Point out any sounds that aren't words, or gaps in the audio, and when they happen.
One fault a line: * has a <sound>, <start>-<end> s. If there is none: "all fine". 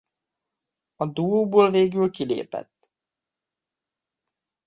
all fine